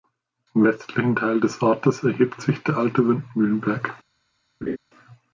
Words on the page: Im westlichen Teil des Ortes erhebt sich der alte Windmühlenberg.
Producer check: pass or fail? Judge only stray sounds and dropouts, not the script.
fail